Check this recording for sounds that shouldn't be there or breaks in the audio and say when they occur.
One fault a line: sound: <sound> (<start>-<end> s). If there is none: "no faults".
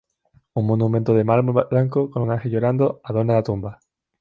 no faults